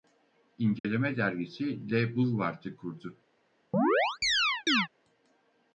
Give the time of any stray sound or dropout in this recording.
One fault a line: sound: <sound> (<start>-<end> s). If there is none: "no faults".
sound: dropout (0.8-0.8 s)
sound: chirp (3.7-4.9 s)